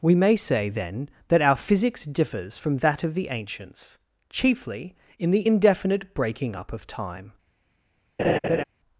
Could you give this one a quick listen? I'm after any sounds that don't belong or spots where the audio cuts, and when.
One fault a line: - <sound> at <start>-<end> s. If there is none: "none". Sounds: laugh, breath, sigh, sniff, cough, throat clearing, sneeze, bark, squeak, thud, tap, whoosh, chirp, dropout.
- laugh at 8.2-8.6 s